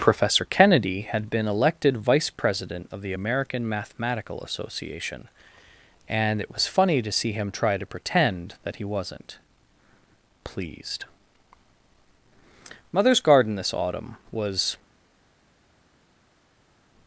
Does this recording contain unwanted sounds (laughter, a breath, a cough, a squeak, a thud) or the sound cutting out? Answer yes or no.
no